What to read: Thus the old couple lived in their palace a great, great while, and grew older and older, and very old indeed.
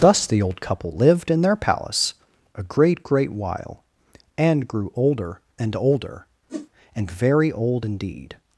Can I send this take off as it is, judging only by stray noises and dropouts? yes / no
no